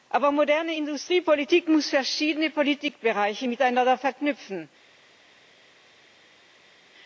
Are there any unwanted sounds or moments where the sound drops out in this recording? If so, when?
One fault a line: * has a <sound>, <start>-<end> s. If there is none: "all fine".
all fine